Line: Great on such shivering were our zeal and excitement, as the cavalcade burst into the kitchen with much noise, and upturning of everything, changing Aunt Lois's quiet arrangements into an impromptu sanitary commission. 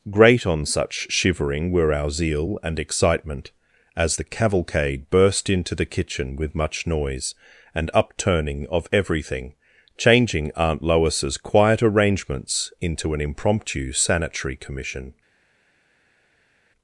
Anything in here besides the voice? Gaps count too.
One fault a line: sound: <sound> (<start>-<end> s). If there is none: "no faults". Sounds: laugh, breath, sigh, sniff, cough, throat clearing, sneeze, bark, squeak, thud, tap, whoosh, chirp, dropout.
no faults